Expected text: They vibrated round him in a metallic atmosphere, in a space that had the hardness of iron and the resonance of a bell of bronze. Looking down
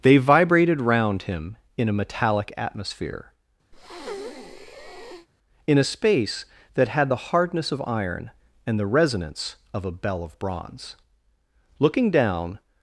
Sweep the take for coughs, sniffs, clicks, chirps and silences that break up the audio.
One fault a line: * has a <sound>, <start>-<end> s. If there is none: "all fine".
* has a breath, 3.7-5.3 s